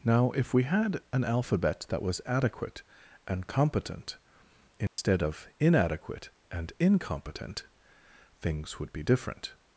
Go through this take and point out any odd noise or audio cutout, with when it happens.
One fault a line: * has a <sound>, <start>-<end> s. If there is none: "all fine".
* has a dropout, 4.9-5.0 s